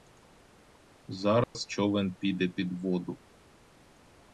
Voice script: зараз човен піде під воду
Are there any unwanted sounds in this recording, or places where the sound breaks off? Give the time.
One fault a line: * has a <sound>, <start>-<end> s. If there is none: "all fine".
* has a dropout, 1.4-1.5 s